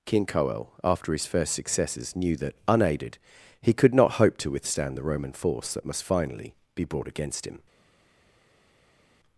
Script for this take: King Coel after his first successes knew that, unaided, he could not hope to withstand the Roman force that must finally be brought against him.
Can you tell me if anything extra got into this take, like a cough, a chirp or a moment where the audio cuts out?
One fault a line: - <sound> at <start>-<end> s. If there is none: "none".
none